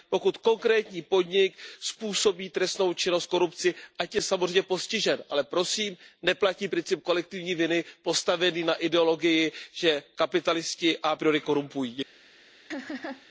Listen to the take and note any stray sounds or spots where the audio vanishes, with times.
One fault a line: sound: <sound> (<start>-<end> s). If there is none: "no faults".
sound: laugh (12.7-13.3 s)